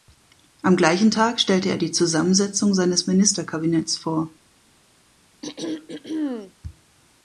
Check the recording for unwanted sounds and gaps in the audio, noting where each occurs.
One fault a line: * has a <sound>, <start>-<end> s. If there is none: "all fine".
* has a throat clearing, 5.4-6.5 s